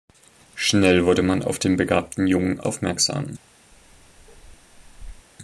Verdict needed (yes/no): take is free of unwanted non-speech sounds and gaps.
no